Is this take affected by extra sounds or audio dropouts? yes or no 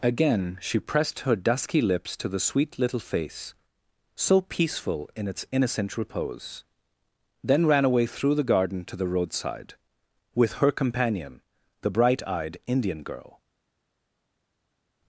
no